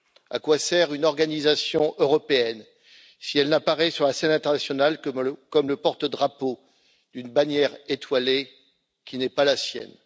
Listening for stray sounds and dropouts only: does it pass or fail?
pass